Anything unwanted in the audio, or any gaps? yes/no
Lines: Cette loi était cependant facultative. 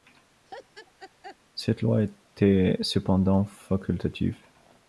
yes